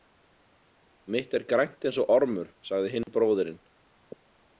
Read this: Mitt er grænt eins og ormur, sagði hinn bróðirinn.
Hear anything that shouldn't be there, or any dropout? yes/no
yes